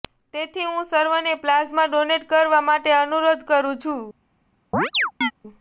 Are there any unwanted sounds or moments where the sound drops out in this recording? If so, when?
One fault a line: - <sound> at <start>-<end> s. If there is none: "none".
- chirp at 4.7-5.3 s